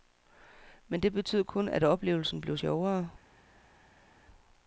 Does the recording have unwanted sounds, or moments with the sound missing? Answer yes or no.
no